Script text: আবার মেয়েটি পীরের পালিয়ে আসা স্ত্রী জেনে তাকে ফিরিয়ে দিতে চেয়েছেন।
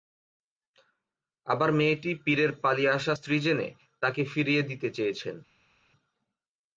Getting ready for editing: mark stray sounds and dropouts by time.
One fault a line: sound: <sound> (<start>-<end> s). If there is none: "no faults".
no faults